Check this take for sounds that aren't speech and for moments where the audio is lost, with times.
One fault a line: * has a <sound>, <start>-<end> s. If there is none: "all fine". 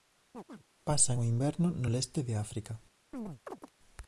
* has a chirp, 0.3-0.6 s
* has a chirp, 3.1-3.7 s